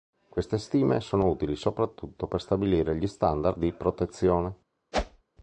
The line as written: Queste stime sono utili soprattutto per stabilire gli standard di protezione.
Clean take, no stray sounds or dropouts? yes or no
no